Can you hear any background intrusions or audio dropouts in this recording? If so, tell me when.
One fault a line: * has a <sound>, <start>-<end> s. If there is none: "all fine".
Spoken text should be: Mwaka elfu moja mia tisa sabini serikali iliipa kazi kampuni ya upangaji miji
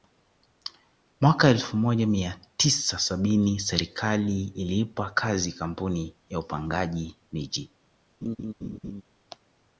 * has a laugh, 8.2-9.0 s